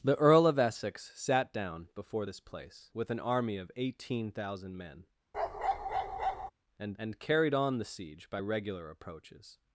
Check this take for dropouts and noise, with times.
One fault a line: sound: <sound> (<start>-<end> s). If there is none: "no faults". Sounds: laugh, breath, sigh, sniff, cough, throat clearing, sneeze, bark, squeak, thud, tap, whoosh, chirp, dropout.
sound: bark (5.3-6.5 s)